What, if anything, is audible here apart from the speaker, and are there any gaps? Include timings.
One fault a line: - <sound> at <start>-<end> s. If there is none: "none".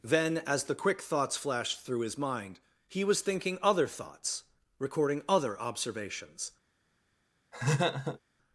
- laugh at 7.5-8.2 s